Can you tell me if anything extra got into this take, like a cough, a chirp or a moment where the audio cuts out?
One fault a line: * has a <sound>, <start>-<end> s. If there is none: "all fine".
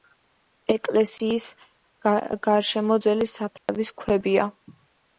* has a dropout, 3.6-3.7 s